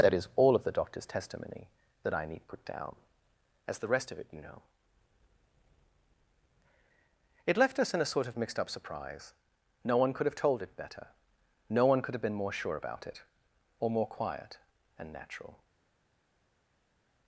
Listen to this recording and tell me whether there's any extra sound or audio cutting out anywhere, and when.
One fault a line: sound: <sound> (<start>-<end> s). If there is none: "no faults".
no faults